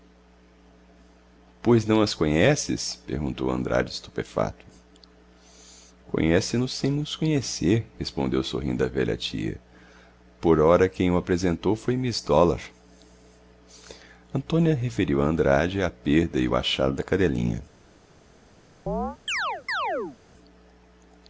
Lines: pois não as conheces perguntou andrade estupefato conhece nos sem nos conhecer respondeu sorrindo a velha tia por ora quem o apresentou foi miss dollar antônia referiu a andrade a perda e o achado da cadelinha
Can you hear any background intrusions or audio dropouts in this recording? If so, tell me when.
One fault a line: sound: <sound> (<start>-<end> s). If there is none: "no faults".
sound: chirp (18.9-20.2 s)